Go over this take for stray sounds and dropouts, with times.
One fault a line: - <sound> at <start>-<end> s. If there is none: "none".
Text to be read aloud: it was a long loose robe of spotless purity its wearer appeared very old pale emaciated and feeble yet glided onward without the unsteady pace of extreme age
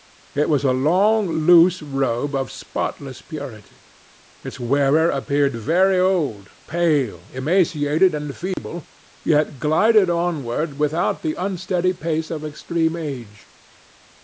- dropout at 8.5-8.6 s